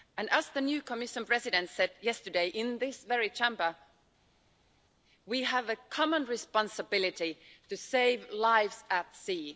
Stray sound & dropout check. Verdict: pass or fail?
pass